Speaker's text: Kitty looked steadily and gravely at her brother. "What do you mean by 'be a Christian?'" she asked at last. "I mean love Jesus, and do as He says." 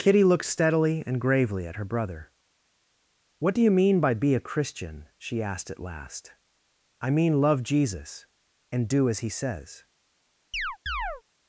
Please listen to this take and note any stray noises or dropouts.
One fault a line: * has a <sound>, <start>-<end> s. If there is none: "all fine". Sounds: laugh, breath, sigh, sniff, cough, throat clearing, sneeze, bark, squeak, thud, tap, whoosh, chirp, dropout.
* has a chirp, 10.5-11.2 s